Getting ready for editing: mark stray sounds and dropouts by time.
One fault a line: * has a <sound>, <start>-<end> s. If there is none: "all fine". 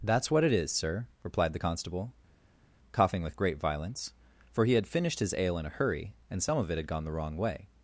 all fine